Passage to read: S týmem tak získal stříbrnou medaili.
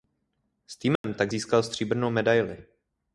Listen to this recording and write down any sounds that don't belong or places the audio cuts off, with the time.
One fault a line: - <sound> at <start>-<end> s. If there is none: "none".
- dropout at 1.0-1.0 s